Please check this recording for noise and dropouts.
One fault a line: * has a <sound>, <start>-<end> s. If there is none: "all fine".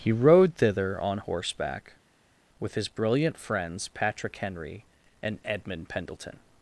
all fine